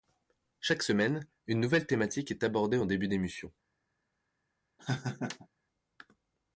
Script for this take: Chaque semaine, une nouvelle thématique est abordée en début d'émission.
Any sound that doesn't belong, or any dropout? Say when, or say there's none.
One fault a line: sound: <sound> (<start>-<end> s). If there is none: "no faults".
sound: laugh (4.8-5.5 s)